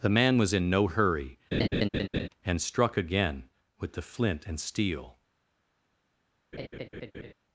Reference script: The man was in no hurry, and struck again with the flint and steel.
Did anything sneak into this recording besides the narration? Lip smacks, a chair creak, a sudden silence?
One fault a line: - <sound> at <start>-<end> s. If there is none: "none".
- laugh at 1.5-2.3 s
- laugh at 6.5-7.3 s